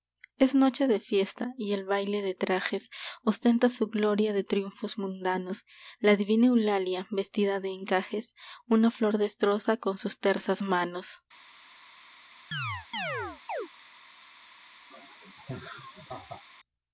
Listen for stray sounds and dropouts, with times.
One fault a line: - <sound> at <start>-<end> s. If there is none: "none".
- chirp at 12.5-13.7 s
- laugh at 14.9-16.4 s